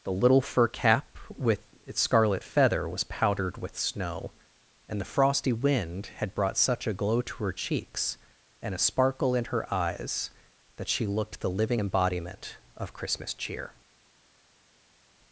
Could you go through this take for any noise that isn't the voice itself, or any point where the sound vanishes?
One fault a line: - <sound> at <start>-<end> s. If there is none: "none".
none